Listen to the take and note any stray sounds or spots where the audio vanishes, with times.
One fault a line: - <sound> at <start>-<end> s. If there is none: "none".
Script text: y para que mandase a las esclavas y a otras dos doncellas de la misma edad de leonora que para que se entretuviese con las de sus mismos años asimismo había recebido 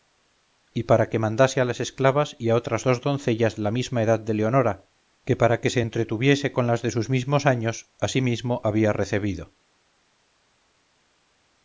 none